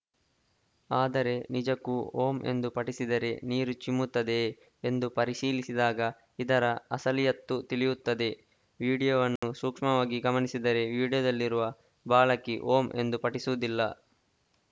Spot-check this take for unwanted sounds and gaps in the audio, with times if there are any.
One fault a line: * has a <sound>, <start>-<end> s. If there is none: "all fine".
* has a dropout, 9.4-9.4 s